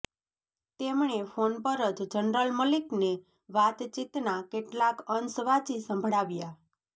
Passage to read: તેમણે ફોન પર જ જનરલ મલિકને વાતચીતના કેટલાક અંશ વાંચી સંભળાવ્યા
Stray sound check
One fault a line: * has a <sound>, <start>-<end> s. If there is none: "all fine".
all fine